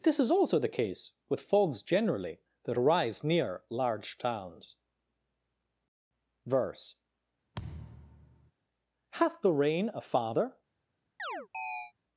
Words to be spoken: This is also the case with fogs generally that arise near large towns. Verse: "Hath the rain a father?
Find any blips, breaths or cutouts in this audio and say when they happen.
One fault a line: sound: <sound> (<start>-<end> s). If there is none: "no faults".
sound: thud (7.5-8.5 s)
sound: chirp (11.2-11.9 s)